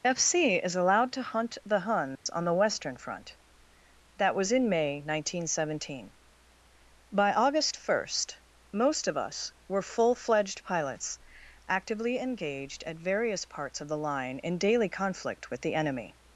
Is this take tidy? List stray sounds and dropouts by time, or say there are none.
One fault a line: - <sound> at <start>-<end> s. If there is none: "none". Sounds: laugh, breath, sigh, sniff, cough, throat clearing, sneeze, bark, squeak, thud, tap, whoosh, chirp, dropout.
- dropout at 2.2-2.3 s